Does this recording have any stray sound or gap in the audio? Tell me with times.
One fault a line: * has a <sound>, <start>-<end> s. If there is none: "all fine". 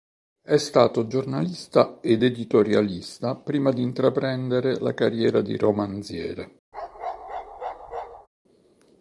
* has a bark, 6.7-8.3 s